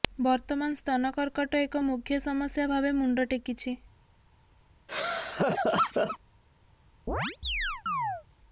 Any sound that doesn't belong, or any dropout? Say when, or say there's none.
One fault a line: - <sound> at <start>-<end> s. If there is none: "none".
- laugh at 4.9-6.2 s
- chirp at 7.1-8.2 s